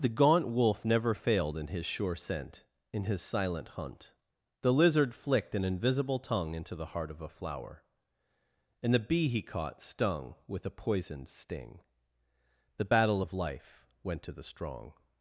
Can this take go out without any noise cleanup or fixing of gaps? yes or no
yes